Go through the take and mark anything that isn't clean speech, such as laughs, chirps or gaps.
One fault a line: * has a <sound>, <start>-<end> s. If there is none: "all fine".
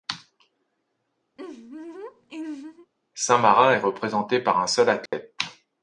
* has a laugh, 1.4-2.9 s
* has a dropout, 5.1-5.1 s